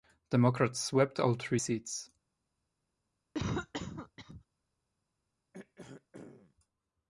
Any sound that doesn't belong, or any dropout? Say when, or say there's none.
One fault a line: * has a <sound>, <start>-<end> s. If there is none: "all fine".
* has a cough, 3.3-4.4 s
* has a throat clearing, 5.5-6.5 s